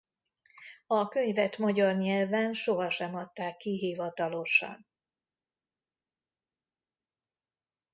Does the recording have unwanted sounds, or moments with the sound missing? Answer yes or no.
no